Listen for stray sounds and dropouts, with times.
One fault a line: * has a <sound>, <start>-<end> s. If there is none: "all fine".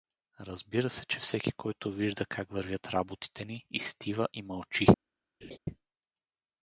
* has a laugh, 5.4-5.6 s